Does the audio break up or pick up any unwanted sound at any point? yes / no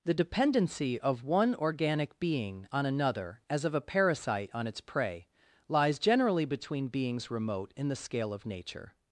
no